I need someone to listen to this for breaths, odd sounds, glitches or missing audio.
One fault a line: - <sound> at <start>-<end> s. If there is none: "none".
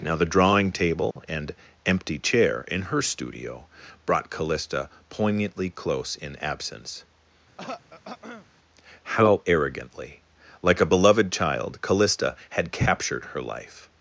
- dropout at 1.1-1.2 s
- throat clearing at 7.6-8.5 s